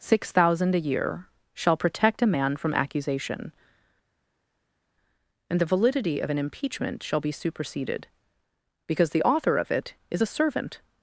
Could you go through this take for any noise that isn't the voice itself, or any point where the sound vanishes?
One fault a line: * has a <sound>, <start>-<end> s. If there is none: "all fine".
all fine